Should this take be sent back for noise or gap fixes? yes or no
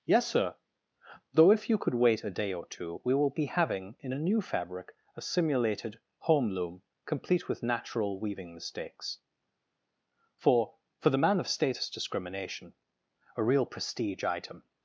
no